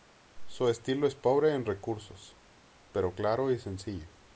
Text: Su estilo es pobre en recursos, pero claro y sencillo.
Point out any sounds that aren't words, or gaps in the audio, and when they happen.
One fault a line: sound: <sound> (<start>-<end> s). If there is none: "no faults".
no faults